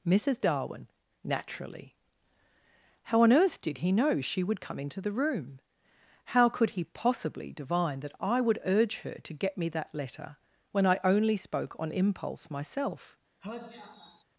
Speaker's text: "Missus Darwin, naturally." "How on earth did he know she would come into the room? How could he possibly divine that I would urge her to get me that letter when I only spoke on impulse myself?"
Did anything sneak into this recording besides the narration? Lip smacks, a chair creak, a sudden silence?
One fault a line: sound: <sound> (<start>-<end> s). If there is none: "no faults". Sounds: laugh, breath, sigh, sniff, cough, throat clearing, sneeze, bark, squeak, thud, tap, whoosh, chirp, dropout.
sound: sneeze (13.4-14.2 s)